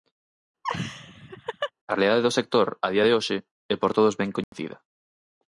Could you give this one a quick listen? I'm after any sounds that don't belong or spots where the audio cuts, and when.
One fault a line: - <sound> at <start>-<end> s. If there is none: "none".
- laugh at 0.6-1.7 s
- dropout at 4.4-4.5 s